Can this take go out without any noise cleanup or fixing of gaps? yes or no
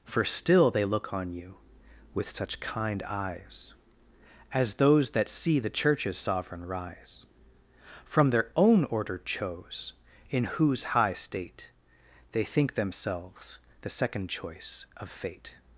yes